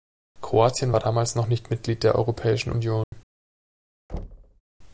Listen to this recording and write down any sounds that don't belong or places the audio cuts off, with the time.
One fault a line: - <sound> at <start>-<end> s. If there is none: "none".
- dropout at 3.0-3.1 s
- thud at 4.1-4.6 s